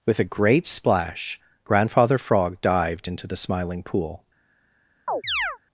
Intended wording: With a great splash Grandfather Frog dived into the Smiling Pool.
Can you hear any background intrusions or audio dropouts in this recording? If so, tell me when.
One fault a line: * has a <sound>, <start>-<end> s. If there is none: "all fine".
* has a chirp, 5.1-5.6 s